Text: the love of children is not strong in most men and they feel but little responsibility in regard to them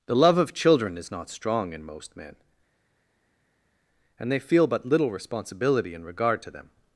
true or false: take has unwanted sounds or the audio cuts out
false